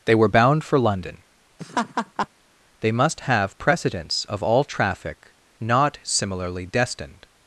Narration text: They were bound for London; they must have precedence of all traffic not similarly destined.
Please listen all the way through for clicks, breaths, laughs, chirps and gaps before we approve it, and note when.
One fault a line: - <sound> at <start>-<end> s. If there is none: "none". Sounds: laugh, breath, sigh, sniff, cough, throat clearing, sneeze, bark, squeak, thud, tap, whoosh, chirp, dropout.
- laugh at 1.6-2.3 s